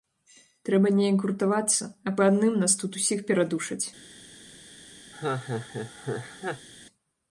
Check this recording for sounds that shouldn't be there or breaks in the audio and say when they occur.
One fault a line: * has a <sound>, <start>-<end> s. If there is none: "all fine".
* has a laugh, 5.1-6.7 s